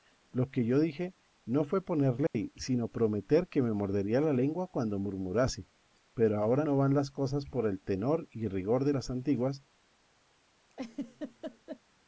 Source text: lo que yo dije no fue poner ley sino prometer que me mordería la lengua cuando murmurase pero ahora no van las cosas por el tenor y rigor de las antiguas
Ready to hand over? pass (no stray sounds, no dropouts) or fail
fail